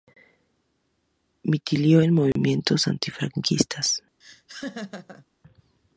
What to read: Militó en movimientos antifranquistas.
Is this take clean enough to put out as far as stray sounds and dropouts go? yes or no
no